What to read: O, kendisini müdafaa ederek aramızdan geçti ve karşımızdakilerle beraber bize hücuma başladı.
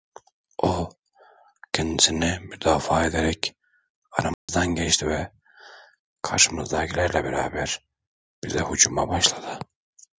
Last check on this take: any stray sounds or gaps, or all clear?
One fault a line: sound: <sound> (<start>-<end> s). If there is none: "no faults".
sound: dropout (4.3-4.5 s)